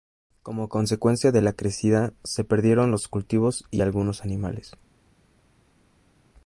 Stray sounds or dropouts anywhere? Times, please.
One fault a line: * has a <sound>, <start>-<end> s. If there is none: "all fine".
all fine